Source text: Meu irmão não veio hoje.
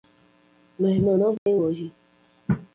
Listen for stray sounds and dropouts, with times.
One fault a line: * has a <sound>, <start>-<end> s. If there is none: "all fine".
* has a dropout, 1.4-1.5 s